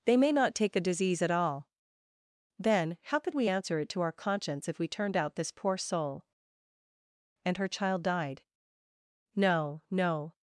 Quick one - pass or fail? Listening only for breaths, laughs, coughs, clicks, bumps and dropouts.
pass